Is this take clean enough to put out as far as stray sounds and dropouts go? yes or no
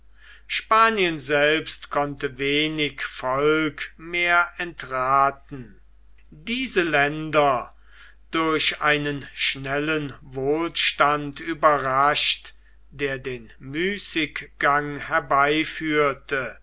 yes